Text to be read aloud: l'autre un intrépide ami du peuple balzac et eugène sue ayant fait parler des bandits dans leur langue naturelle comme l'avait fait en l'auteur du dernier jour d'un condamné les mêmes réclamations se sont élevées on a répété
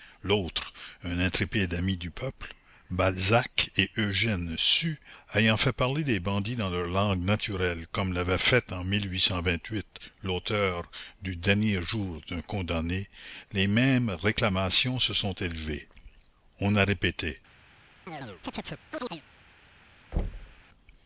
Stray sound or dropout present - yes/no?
yes